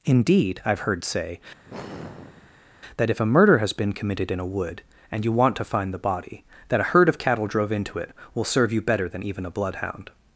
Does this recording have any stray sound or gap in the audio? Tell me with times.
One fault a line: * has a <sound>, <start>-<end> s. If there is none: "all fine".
* has a sigh, 1.6-2.7 s